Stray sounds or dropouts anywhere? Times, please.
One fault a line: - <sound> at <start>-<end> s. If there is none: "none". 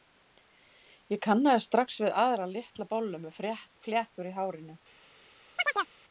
- chirp at 5.6-5.9 s